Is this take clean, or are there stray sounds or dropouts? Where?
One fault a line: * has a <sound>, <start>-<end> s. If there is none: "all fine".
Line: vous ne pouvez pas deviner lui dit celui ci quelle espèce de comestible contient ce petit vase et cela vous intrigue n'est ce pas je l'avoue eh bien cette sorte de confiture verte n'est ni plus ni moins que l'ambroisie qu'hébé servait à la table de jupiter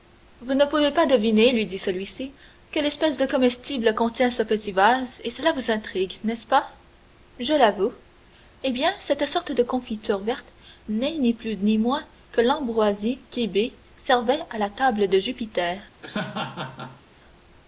* has a laugh, 16.0-17.0 s